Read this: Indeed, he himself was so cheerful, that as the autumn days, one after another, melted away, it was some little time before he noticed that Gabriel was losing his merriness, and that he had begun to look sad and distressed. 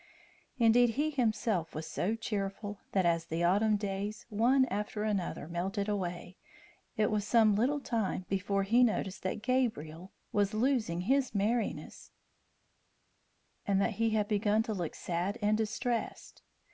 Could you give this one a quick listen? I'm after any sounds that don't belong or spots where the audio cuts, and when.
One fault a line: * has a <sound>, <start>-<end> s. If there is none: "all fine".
all fine